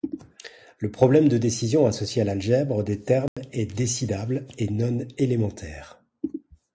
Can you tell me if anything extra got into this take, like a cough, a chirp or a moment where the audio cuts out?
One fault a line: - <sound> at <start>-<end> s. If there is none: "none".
- dropout at 3.3-3.4 s